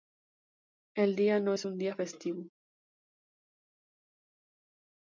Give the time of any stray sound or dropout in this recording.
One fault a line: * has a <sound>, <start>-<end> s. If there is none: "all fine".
all fine